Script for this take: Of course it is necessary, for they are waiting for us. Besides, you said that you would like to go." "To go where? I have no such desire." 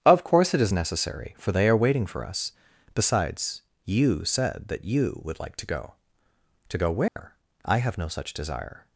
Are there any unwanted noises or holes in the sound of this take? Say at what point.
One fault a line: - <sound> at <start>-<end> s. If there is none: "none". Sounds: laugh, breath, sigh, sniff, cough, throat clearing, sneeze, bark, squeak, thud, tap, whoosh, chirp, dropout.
- dropout at 7.1-7.2 s